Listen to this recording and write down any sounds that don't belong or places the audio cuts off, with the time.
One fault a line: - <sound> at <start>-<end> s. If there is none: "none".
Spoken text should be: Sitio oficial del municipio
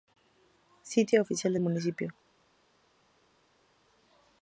none